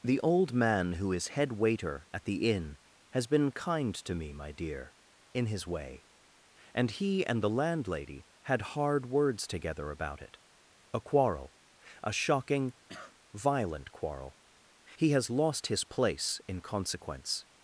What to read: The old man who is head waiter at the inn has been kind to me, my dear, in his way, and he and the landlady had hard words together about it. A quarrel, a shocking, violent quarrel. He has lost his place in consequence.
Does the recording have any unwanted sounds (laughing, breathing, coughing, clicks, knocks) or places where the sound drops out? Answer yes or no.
yes